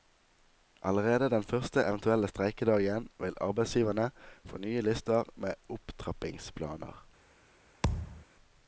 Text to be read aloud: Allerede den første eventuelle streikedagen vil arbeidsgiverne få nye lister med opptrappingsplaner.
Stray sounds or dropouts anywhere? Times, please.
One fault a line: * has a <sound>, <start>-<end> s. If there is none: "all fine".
* has a thud, 7.8-8.2 s